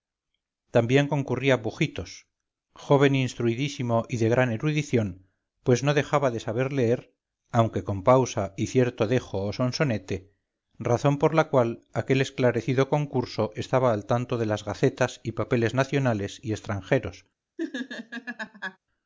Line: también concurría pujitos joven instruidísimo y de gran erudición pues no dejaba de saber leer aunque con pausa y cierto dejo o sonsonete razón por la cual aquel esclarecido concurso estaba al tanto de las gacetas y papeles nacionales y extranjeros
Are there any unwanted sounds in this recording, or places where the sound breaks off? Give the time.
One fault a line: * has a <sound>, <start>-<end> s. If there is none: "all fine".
* has a laugh, 17.6-18.8 s